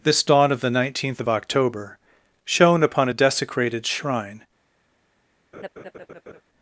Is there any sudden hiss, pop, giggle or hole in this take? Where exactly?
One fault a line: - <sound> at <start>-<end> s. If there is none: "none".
- laugh at 5.5-6.4 s